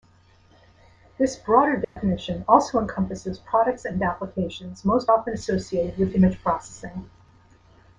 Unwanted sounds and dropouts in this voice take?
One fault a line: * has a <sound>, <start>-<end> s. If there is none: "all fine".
* has a dropout, 1.8-2.0 s